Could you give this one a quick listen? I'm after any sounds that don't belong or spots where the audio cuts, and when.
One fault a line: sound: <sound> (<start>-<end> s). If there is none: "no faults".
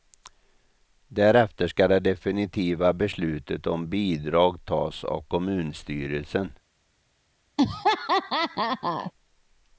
sound: laugh (7.6-9.1 s)